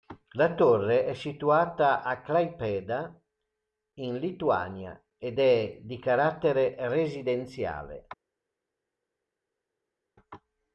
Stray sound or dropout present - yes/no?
no